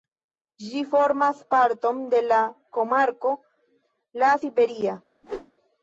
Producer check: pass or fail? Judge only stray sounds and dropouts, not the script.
fail